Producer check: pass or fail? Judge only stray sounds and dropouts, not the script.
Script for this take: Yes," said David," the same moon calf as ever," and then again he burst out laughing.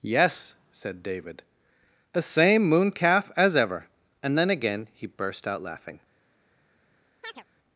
fail